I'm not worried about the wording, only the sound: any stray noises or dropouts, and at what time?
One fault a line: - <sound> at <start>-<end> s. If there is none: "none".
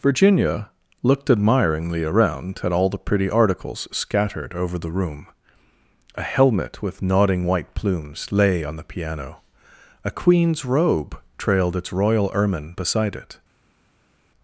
none